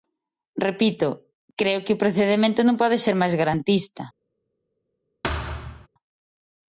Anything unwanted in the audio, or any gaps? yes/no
yes